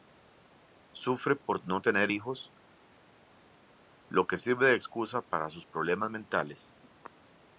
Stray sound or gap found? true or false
false